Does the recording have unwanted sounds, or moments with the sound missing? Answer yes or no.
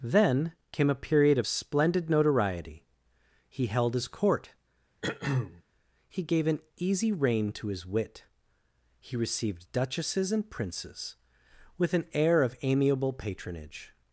yes